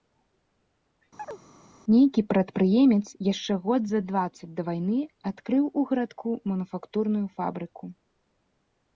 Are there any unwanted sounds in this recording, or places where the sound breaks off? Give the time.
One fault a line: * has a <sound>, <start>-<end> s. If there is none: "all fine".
* has a chirp, 1.2-1.4 s